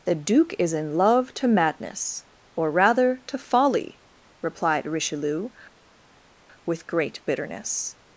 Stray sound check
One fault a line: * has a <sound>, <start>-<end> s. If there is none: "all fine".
all fine